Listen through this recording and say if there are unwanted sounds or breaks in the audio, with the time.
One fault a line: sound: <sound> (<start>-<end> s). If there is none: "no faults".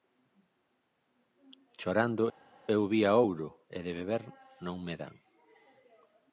no faults